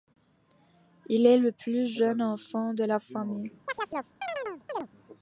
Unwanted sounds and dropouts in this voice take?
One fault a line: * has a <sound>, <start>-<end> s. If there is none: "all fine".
* has a chirp, 3.7-4.9 s